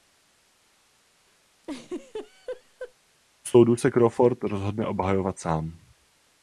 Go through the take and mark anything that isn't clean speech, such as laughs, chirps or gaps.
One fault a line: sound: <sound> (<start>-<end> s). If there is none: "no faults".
sound: laugh (1.6-2.9 s)